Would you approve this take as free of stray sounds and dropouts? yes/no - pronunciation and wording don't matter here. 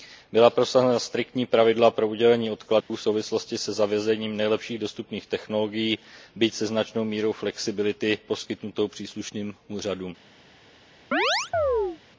no